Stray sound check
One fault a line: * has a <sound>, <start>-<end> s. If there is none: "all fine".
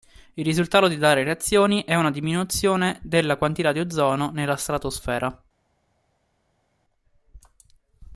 all fine